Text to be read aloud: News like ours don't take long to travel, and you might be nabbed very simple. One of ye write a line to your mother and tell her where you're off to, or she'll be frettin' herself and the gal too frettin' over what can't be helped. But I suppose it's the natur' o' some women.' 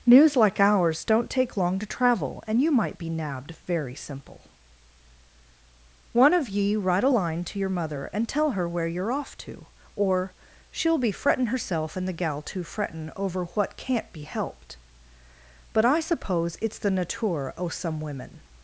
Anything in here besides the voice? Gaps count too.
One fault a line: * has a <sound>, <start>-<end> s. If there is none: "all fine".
all fine